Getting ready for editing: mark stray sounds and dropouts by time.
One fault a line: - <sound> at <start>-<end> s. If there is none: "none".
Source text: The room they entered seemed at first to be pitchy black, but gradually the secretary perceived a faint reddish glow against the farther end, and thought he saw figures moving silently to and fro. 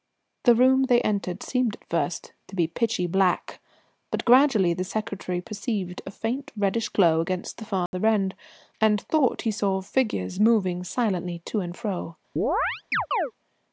- dropout at 7.9-7.9 s
- chirp at 12.4-13.3 s